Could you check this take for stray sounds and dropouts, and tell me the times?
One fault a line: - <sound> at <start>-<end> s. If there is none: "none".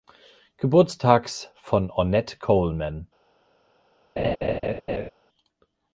- laugh at 4.2-5.1 s